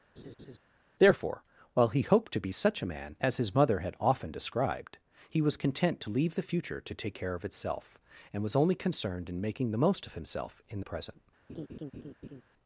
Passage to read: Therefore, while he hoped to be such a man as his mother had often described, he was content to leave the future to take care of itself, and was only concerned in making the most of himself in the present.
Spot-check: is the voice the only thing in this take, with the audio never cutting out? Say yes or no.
no